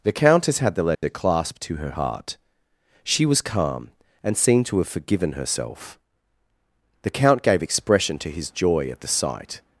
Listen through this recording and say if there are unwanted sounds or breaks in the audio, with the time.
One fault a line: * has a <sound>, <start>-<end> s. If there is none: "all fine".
* has a dropout, 0.9-1.0 s